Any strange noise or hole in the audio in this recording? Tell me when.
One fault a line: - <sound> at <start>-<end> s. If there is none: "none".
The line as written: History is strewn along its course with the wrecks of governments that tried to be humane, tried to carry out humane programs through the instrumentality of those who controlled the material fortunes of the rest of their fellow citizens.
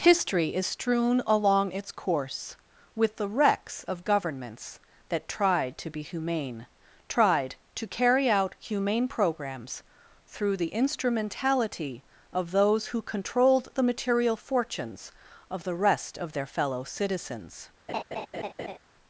- laugh at 17.9-18.8 s